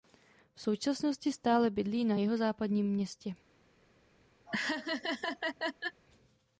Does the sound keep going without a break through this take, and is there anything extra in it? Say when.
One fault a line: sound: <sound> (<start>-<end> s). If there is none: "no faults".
sound: laugh (4.5-6.0 s)